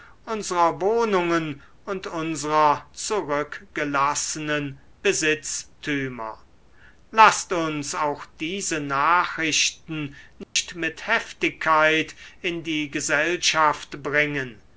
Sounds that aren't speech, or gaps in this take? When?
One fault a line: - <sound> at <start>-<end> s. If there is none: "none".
- dropout at 10.4-10.6 s